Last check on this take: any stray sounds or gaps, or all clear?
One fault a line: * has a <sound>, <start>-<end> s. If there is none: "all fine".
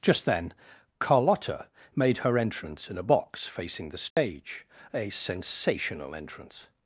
* has a dropout, 4.1-4.2 s